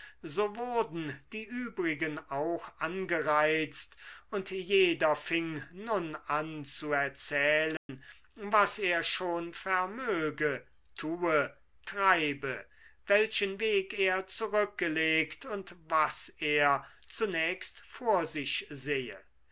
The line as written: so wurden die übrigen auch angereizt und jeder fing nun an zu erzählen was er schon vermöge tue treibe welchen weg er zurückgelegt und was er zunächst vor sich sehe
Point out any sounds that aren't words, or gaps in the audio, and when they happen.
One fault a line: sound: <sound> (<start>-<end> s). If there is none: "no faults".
sound: dropout (7.8-7.9 s)